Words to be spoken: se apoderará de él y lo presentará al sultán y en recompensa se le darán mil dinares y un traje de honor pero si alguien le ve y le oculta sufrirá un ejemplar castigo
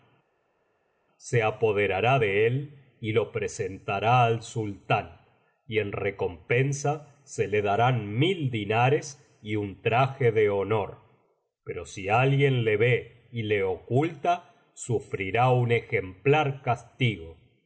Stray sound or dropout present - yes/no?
no